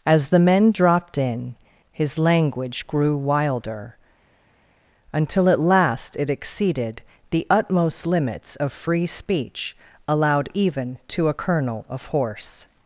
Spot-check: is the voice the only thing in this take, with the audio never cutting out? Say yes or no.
yes